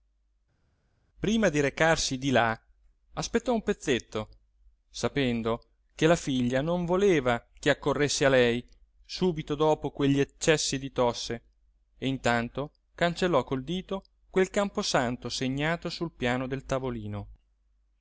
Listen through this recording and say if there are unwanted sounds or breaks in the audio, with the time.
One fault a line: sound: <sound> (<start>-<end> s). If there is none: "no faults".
no faults